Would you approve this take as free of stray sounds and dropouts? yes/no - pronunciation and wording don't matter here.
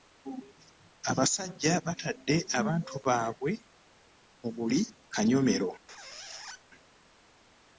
no